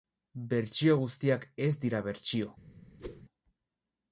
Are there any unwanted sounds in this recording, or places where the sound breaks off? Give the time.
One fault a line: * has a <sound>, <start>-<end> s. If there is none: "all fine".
* has a whoosh, 3.0-3.2 s